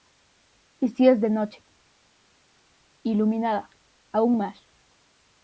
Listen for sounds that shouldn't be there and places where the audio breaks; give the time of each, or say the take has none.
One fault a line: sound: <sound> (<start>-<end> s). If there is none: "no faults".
no faults